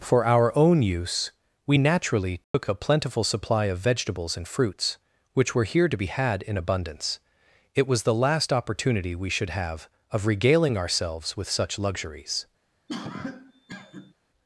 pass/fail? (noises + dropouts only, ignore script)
fail